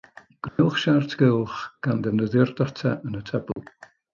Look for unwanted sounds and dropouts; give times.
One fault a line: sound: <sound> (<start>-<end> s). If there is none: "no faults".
sound: dropout (0.5-0.6 s)
sound: dropout (3.5-3.6 s)